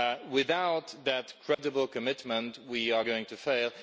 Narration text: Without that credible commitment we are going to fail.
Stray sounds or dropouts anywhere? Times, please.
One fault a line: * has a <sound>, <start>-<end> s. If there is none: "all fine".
* has a dropout, 1.5-1.6 s